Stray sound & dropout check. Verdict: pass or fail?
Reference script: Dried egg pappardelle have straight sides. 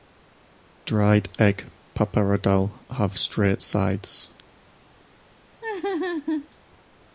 fail